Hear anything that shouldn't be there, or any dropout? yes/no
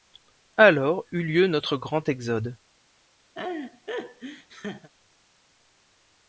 yes